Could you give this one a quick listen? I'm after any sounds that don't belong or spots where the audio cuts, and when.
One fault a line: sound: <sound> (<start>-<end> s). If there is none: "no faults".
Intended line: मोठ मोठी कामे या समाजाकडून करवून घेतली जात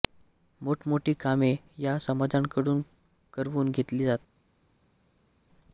no faults